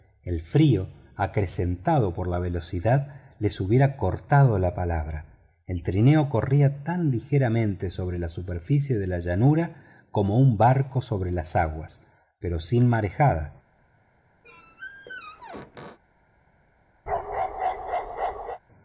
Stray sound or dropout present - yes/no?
yes